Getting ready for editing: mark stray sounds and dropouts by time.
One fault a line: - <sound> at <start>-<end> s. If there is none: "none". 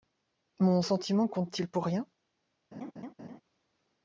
- laugh at 2.7-3.4 s